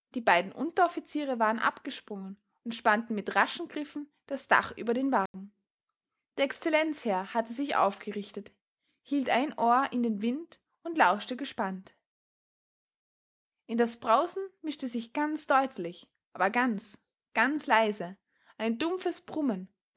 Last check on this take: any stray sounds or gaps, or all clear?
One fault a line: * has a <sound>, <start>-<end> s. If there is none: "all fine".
* has a dropout, 5.3-5.3 s